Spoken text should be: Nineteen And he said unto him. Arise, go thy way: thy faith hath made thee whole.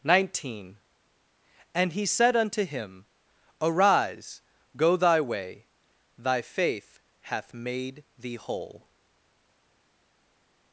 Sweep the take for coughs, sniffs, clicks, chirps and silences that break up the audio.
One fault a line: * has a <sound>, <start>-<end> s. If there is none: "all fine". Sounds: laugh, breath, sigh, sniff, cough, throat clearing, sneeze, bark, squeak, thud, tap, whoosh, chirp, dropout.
all fine